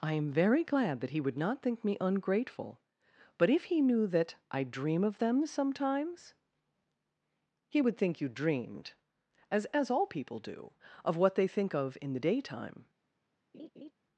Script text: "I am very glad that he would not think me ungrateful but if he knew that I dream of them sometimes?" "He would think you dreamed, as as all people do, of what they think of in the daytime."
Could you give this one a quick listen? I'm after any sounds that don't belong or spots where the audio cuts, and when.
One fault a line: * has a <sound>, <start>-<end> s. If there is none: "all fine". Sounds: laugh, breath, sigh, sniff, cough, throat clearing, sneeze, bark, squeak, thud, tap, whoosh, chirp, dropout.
* has a laugh, 13.5-13.9 s